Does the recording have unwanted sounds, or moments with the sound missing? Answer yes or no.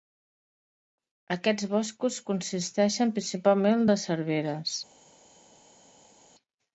no